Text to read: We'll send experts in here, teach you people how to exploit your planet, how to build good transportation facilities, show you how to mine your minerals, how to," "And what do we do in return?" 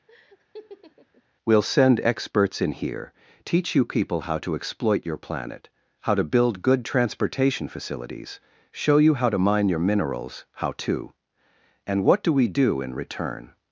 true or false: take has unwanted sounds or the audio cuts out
true